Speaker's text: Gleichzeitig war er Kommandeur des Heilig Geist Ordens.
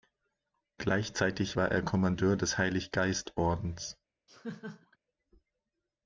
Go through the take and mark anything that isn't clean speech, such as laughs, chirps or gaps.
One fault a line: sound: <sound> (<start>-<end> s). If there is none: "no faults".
sound: laugh (4.3-5.0 s)